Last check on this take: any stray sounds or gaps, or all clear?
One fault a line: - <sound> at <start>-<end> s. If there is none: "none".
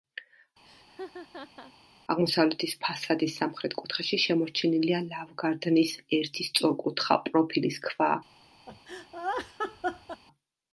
- laugh at 0.6-1.7 s
- laugh at 8.7-10.2 s